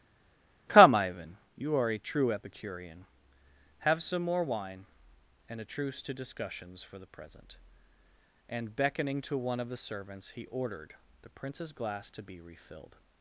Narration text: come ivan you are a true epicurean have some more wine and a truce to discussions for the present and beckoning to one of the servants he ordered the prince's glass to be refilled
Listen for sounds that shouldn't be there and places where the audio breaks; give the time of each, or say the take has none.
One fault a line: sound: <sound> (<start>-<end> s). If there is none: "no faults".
no faults